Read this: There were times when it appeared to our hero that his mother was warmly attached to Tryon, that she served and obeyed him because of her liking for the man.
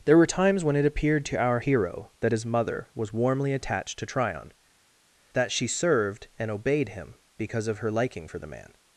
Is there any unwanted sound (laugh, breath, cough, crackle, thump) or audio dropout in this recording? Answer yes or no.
no